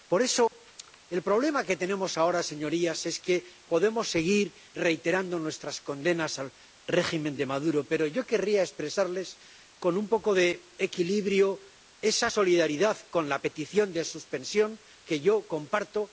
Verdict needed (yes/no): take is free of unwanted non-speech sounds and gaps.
no